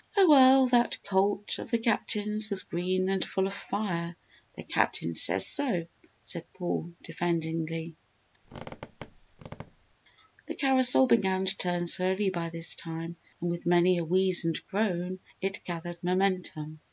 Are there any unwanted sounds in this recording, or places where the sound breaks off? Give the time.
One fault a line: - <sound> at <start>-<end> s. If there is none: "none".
- squeak at 8.4-10.0 s